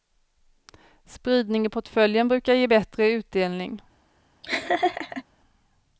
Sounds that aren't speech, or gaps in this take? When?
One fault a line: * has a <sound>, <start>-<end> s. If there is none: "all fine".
* has a laugh, 4.4-5.2 s